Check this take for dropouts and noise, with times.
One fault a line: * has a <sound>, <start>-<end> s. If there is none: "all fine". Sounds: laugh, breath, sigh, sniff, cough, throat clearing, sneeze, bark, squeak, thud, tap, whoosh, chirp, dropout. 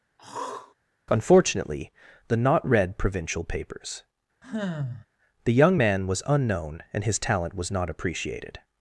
* has a throat clearing, 0.2-0.7 s
* has a sigh, 4.4-5.1 s